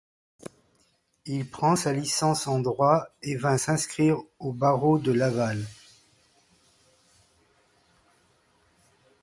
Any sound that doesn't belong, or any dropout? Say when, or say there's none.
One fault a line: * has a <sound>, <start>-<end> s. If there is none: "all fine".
all fine